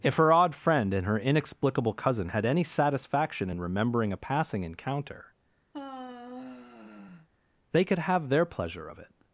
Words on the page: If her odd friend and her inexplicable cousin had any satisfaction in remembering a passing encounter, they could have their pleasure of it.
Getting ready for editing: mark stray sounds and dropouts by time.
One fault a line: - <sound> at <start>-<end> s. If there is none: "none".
- sigh at 5.7-7.3 s